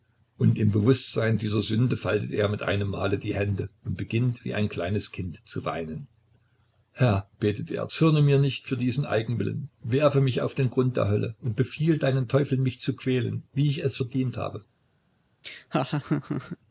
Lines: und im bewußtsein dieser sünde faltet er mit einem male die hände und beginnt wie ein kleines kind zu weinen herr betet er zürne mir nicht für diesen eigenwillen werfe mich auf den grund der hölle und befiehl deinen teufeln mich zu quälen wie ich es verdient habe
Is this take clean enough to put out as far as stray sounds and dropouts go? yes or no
no